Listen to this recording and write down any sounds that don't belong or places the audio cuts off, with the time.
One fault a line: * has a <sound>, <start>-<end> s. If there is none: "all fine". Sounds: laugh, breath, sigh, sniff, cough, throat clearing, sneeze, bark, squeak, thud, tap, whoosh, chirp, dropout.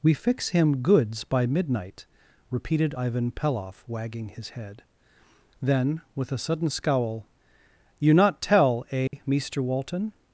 * has a dropout, 9.1-9.1 s